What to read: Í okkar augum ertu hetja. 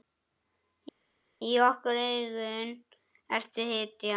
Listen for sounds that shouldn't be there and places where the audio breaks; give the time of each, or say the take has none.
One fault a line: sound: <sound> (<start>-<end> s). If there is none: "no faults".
no faults